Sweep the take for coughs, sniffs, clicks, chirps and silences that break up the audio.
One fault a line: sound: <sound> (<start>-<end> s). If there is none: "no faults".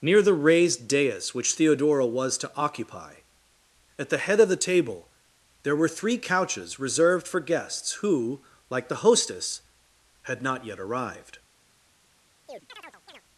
sound: chirp (12.5-13.2 s)